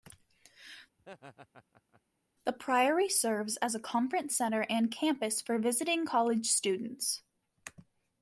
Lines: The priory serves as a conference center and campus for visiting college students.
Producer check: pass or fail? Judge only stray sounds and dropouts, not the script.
fail